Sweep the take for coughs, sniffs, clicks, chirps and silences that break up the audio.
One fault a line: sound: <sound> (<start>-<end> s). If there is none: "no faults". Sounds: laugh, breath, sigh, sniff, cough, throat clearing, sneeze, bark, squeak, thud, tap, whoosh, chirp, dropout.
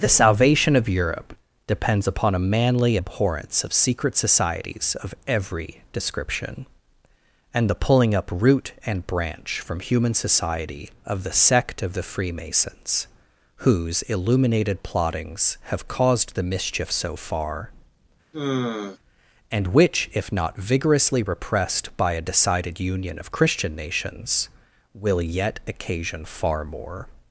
sound: sigh (18.3-19.0 s)